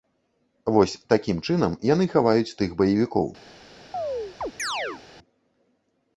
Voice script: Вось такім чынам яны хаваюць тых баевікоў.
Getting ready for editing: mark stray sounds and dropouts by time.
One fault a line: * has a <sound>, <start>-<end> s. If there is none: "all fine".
* has a chirp, 3.9-5.0 s